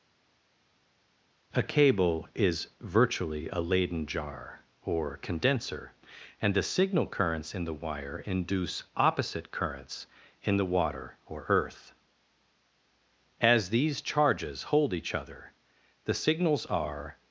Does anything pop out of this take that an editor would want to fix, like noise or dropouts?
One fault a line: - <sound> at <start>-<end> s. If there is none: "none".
none